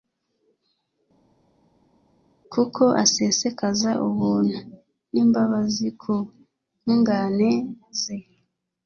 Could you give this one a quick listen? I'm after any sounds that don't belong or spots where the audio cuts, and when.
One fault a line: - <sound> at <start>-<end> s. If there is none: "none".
none